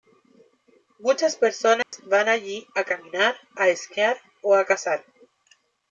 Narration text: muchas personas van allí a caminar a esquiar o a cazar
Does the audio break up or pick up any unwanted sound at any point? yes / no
yes